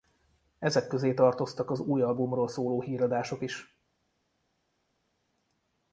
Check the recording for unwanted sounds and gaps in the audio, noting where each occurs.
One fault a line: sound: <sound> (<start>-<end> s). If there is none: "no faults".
no faults